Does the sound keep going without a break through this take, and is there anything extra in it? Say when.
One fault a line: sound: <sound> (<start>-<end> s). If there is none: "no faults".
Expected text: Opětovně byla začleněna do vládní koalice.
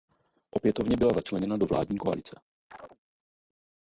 sound: chirp (2.7-3.0 s)